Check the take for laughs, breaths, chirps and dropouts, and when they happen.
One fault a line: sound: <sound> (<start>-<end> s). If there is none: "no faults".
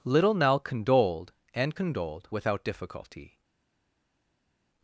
no faults